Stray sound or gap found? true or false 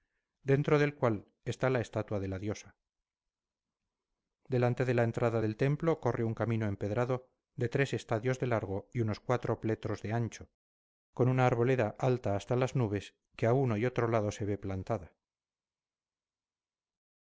false